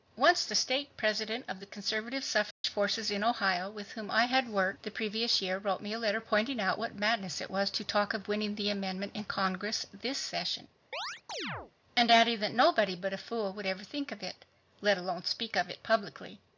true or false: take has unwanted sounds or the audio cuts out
true